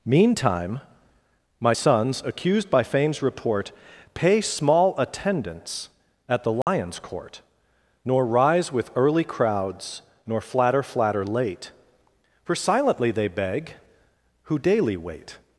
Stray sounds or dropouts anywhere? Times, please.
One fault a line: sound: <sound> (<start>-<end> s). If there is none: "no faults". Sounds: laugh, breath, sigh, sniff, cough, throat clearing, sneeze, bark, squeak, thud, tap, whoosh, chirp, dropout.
sound: dropout (6.6-6.7 s)